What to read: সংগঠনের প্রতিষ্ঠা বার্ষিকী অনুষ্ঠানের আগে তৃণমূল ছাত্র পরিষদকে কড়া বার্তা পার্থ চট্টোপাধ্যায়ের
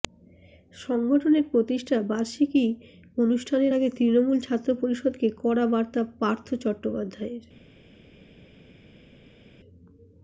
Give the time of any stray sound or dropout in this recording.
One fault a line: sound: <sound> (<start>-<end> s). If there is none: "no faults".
no faults